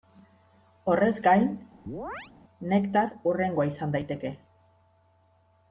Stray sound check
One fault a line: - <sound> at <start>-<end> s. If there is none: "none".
- chirp at 1.9-2.3 s